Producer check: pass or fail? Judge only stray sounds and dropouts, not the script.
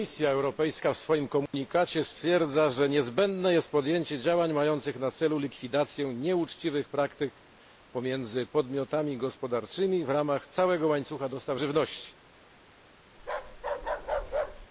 fail